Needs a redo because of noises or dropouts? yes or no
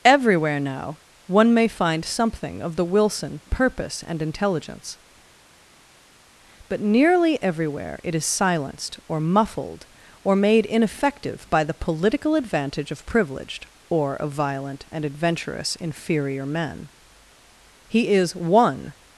no